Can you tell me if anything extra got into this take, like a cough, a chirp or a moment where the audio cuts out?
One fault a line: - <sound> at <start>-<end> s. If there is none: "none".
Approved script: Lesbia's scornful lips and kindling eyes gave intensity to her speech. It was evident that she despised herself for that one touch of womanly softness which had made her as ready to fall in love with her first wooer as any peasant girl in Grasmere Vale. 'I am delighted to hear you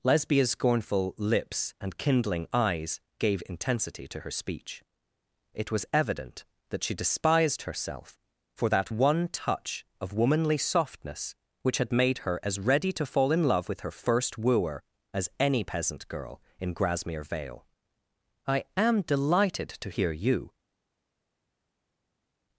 none